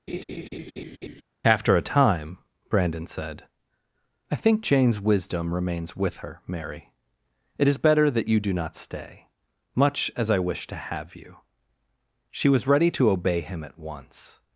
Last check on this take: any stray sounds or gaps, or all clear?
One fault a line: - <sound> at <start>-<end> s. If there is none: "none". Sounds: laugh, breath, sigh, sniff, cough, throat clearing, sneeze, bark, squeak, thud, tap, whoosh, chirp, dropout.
- laugh at 0.1-1.2 s